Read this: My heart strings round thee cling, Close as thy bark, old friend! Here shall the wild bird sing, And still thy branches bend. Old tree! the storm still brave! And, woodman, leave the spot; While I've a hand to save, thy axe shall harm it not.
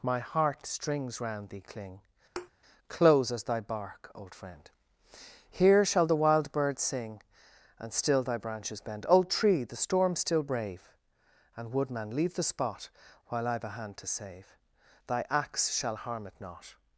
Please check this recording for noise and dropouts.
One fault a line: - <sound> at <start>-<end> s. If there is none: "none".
- thud at 2.4-2.5 s